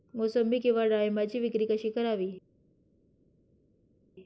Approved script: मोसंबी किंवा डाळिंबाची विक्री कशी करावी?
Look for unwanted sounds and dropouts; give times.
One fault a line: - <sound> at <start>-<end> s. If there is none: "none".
none